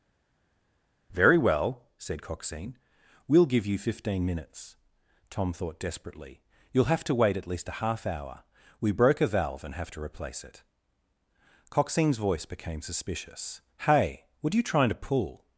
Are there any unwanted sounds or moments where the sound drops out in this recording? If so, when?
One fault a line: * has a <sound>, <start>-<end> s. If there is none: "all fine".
all fine